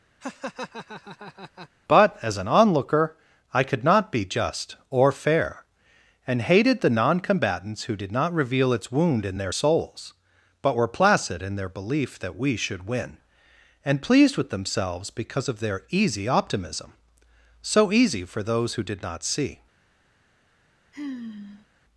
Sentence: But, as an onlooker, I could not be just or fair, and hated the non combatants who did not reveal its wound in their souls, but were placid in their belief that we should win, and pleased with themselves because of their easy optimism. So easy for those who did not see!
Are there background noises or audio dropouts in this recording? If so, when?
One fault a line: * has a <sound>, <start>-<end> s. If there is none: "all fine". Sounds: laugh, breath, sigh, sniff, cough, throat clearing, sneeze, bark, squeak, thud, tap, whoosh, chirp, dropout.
* has a laugh, 0.2-1.7 s
* has a sigh, 20.9-21.7 s